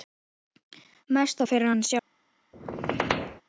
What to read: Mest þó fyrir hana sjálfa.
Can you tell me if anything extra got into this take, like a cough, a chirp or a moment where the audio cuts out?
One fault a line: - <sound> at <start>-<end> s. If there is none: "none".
- squeak at 2.5-3.4 s